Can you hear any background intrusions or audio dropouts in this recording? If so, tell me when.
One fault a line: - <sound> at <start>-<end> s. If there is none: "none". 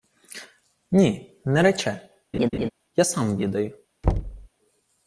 - laugh at 2.3-2.7 s
- thud at 4.0-4.5 s